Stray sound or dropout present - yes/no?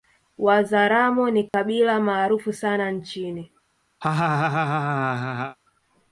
yes